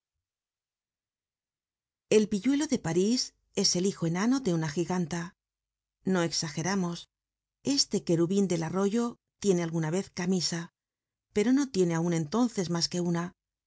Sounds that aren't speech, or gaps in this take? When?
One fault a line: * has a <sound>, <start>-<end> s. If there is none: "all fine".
all fine